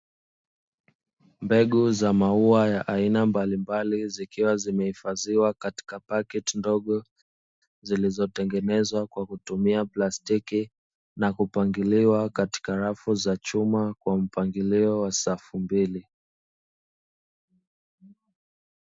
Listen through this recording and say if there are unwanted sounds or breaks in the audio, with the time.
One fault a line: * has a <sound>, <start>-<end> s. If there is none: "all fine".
all fine